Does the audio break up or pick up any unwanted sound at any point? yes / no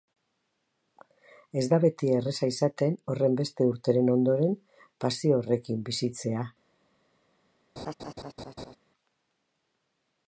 yes